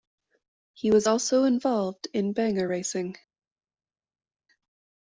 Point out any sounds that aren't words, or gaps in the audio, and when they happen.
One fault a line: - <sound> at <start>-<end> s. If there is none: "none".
none